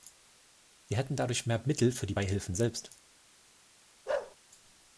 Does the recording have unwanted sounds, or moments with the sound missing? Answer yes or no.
yes